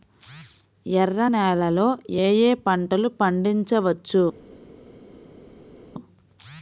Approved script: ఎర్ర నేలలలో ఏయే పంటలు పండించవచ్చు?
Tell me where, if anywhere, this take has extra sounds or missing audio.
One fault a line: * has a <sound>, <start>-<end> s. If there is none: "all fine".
all fine